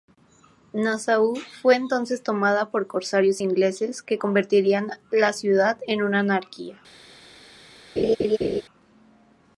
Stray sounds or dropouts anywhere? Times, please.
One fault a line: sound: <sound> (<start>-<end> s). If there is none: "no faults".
sound: laugh (8.0-8.6 s)